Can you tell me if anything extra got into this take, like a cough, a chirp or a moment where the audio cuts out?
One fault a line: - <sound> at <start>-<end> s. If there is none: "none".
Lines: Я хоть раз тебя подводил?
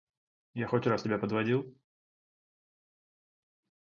none